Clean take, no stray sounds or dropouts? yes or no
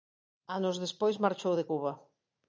yes